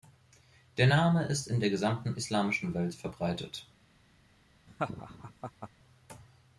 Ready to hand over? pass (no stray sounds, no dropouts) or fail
fail